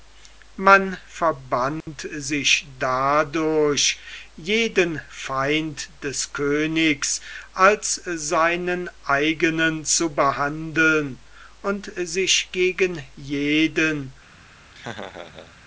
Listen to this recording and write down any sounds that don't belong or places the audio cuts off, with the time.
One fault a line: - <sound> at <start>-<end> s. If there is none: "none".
- dropout at 1.8-1.9 s
- laugh at 14.7-15.6 s